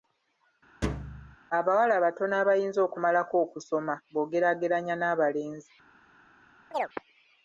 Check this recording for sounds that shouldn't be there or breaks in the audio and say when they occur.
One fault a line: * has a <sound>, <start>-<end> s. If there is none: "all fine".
* has a thud, 0.8-1.4 s
* has a chirp, 6.7-6.9 s